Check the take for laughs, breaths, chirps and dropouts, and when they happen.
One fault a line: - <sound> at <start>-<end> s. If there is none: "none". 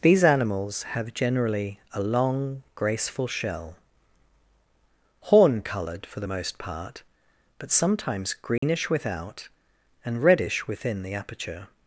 - dropout at 8.6-8.6 s